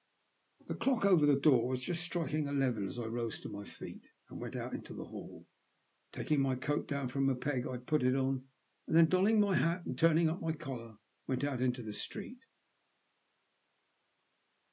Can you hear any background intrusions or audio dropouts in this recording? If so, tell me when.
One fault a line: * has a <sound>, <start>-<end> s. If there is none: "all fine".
all fine